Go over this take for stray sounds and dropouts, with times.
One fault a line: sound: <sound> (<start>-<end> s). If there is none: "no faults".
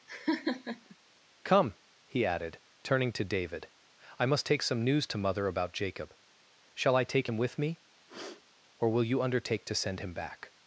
sound: laugh (0.1-1.0 s)
sound: sniff (8.1-8.4 s)